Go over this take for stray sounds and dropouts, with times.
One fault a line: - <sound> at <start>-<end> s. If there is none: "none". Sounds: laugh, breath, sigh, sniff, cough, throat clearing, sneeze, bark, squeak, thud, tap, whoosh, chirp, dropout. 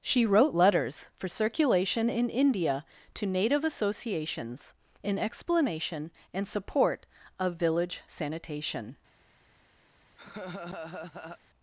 - laugh at 10.2-11.4 s